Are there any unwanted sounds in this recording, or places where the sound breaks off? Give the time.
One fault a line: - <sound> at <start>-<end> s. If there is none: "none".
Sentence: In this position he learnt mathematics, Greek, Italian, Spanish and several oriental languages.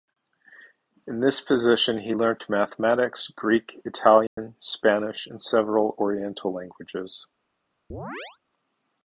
- dropout at 4.3-4.4 s
- chirp at 7.9-8.4 s